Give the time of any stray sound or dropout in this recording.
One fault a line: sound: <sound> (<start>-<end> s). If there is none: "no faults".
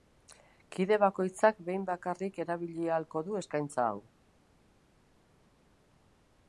no faults